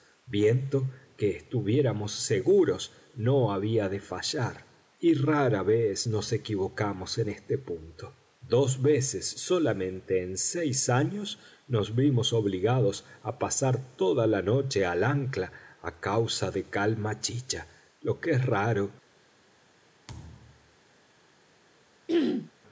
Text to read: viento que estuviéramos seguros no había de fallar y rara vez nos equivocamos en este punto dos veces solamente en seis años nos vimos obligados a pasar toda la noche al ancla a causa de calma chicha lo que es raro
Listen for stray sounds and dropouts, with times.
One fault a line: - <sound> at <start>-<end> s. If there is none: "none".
- thud at 20.1-20.8 s
- throat clearing at 22.1-22.5 s